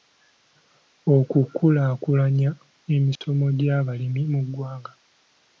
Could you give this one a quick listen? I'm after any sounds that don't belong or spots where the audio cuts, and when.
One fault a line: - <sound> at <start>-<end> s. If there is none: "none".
- dropout at 3.2-3.2 s